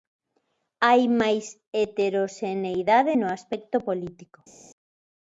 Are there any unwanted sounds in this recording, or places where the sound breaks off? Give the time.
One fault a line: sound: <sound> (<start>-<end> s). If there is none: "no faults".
no faults